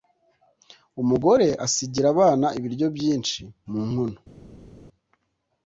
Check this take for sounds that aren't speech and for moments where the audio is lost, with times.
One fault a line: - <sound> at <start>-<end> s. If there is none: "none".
none